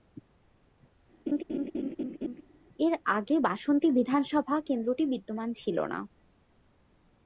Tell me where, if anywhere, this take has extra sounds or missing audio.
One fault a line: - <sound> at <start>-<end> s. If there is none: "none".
- laugh at 1.3-2.4 s